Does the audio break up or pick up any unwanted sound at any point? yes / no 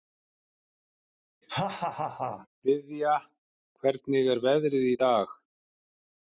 yes